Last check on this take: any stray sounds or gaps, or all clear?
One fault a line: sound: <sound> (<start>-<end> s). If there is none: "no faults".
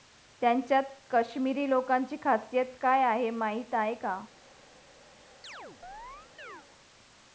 sound: chirp (5.4-6.7 s)